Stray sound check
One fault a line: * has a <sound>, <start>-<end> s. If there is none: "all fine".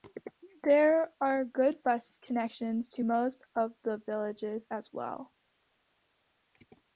all fine